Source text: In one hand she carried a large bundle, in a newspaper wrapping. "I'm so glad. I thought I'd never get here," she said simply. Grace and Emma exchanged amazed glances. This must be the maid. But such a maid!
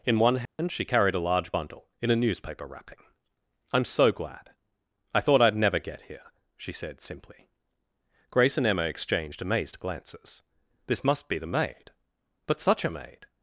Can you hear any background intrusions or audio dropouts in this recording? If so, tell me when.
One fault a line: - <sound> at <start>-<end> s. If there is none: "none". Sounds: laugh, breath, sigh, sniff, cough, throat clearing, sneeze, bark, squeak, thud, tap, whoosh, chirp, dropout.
- dropout at 0.5-0.6 s